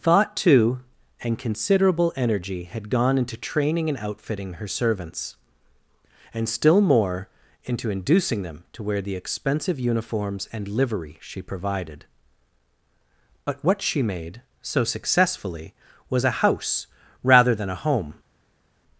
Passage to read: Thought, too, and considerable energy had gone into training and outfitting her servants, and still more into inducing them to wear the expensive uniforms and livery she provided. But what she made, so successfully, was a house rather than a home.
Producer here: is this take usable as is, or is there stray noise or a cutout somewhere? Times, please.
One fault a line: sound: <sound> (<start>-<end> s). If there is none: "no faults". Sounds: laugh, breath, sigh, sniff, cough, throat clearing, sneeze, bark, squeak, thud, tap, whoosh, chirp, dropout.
no faults